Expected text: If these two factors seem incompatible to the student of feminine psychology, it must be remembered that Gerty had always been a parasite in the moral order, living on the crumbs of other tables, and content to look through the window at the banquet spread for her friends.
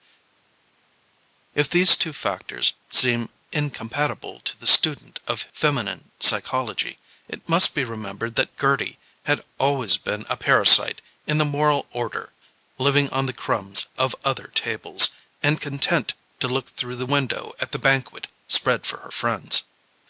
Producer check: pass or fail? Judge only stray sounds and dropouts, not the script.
pass